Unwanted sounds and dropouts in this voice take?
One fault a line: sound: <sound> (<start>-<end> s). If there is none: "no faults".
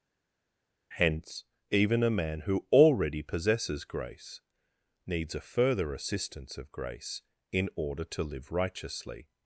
no faults